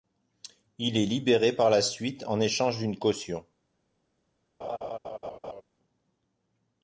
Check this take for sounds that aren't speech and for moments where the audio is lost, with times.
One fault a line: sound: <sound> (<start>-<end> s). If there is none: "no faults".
sound: laugh (4.6-5.6 s)